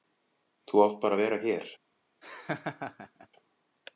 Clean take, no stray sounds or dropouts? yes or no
no